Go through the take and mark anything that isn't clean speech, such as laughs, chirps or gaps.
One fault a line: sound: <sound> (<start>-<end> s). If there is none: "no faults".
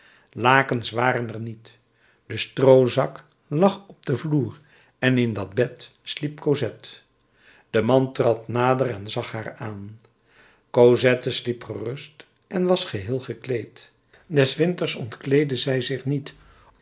no faults